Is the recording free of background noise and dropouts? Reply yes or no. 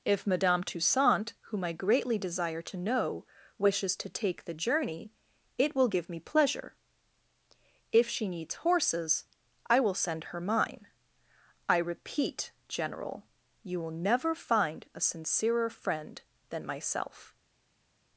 yes